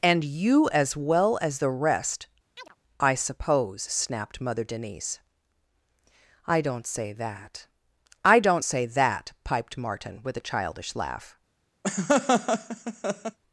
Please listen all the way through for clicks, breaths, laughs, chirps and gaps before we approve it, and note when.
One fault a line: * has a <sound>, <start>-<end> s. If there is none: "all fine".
* has a chirp, 2.6-2.8 s
* has a laugh, 11.8-13.4 s